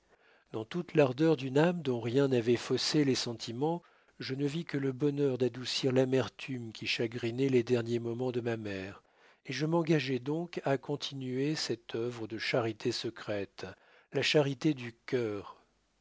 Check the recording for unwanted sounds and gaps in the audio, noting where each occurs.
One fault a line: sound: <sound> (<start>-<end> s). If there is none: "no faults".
no faults